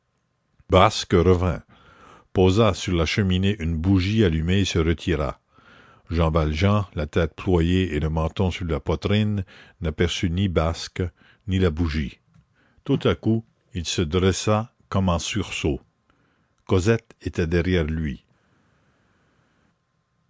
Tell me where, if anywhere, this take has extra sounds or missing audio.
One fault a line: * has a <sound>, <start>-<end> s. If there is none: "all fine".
all fine